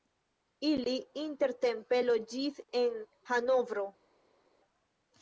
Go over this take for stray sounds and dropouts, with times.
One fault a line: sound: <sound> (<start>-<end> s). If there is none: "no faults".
no faults